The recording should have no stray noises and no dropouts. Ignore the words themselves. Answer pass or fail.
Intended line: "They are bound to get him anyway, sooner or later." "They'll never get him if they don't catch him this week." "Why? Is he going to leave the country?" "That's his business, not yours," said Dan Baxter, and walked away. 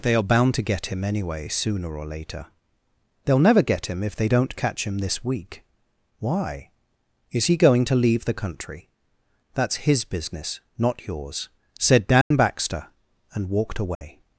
fail